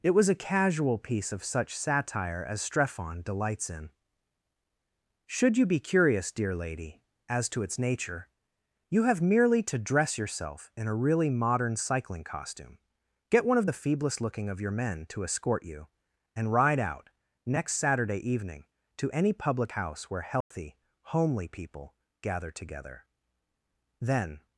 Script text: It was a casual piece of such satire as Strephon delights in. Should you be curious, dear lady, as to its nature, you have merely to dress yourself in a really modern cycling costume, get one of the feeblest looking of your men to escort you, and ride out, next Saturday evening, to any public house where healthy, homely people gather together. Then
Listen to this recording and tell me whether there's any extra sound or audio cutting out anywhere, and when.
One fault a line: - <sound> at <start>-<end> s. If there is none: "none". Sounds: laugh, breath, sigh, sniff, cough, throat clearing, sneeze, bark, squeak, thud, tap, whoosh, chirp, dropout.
- dropout at 20.4-20.5 s